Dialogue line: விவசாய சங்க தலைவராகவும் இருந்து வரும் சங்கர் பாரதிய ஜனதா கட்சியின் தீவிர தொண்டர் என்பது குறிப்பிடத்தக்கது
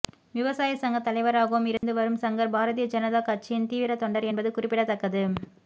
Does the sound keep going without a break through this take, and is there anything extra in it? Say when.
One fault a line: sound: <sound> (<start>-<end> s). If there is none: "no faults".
sound: dropout (1.8-1.8 s)